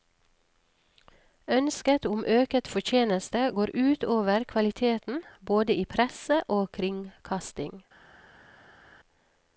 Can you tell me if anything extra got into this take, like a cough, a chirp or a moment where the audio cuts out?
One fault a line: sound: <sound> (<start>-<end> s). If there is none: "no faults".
no faults